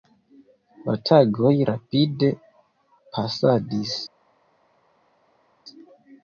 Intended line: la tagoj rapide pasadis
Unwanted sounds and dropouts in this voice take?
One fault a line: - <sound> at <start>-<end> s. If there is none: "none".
none